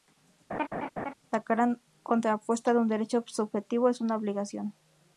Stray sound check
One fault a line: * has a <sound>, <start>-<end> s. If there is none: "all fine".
* has a laugh, 0.5-1.1 s